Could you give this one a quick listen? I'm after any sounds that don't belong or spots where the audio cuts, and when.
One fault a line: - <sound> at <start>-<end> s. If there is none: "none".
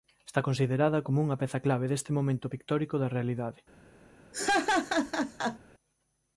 - laugh at 4.3-5.6 s